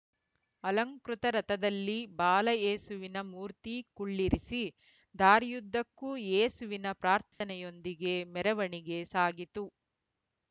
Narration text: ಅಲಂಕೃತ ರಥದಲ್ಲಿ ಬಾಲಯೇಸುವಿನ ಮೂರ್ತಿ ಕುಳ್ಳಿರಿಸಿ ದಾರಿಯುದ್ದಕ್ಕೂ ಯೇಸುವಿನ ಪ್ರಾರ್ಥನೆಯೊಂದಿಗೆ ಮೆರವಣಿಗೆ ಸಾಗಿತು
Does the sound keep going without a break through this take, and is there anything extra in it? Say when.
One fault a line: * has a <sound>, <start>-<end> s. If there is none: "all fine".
* has a dropout, 7.3-7.4 s